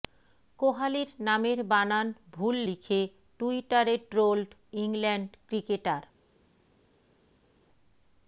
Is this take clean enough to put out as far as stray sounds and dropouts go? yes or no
yes